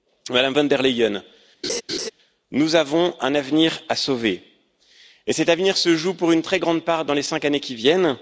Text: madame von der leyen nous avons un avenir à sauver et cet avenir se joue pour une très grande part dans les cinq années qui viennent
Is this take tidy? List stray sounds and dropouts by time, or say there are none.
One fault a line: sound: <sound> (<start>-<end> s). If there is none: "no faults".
sound: laugh (1.6-2.1 s)